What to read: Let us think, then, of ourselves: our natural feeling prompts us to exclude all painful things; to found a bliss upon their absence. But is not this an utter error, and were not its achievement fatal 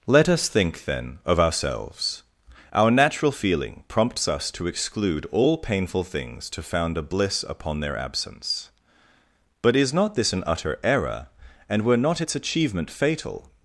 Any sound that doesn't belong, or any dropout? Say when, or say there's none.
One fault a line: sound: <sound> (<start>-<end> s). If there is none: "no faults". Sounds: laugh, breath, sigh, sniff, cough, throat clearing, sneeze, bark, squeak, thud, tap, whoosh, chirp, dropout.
no faults